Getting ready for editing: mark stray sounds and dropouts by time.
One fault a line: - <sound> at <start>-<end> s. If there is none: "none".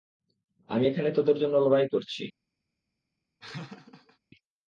- laugh at 3.4-4.2 s